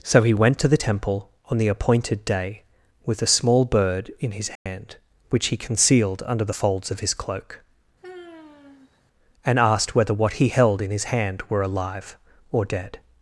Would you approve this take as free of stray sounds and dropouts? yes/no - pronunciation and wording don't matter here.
no